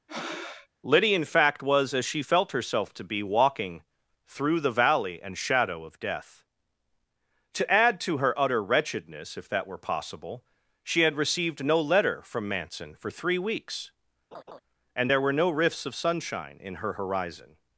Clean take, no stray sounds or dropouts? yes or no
no